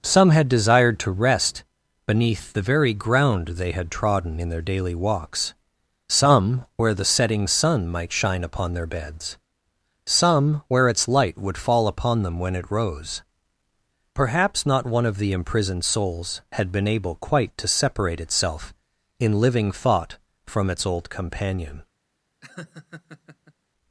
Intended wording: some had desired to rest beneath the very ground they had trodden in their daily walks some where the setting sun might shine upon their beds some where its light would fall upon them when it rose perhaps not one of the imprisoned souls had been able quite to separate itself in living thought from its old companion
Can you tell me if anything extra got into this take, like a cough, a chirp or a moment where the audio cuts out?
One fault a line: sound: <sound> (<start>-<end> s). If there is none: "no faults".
sound: laugh (22.4-23.5 s)